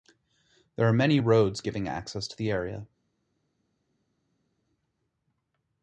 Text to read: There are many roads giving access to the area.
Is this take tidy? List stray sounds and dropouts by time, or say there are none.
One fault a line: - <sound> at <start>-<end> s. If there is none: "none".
none